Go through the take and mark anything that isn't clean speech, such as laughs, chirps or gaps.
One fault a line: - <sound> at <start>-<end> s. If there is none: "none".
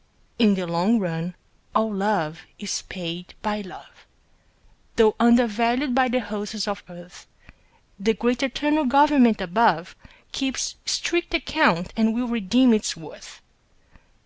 none